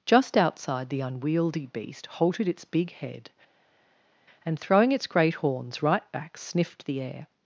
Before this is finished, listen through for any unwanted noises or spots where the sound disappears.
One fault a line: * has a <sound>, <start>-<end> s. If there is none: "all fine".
all fine